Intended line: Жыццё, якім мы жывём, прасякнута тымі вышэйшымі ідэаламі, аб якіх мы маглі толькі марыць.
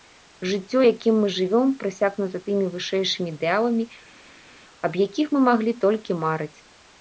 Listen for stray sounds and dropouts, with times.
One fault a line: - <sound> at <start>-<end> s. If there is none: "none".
none